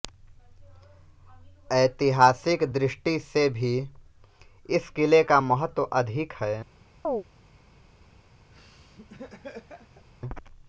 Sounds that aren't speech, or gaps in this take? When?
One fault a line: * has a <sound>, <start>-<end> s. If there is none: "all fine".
* has a chirp, 7.0-7.2 s
* has a laugh, 8.5-10.1 s